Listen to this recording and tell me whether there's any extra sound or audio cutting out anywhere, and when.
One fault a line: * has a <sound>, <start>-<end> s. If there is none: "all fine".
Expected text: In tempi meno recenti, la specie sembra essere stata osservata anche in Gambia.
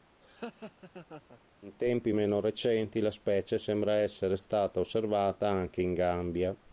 * has a laugh, 0.2-1.4 s